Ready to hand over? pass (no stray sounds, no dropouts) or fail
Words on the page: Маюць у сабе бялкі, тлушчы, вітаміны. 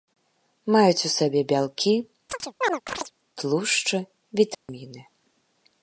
fail